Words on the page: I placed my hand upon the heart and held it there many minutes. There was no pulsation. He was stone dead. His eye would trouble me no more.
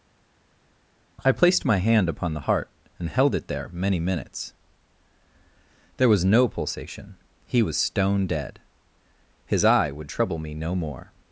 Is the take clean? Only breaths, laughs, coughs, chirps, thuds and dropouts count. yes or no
yes